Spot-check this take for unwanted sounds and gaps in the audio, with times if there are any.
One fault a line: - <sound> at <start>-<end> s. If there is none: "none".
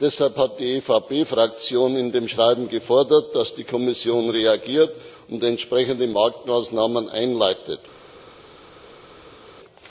none